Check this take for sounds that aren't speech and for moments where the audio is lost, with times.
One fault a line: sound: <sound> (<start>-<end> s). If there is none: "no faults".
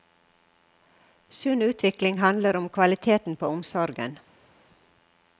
no faults